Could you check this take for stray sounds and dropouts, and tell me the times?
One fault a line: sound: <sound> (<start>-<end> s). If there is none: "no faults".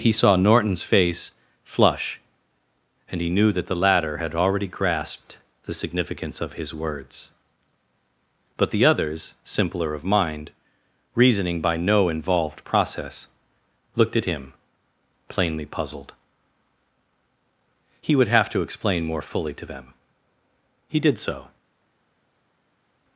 no faults